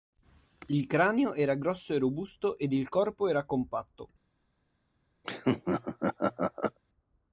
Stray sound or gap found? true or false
true